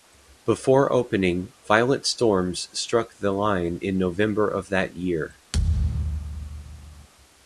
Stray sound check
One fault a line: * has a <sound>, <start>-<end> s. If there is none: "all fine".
* has a thud, 5.5-7.1 s